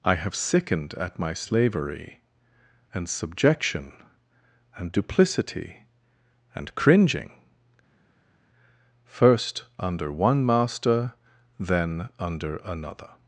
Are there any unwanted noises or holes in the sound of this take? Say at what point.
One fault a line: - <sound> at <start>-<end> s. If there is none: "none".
none